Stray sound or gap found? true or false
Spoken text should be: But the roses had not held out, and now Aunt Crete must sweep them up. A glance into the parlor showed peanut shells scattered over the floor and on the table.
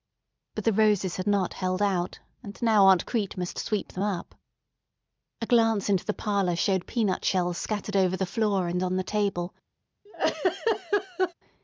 true